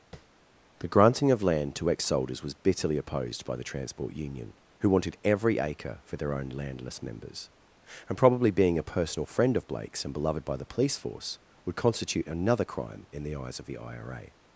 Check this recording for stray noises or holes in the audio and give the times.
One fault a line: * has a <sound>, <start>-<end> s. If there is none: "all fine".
* has a tap, 0.1-0.3 s